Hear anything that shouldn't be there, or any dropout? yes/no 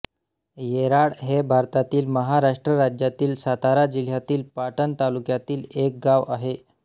no